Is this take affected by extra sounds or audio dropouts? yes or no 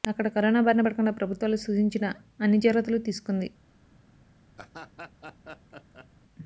yes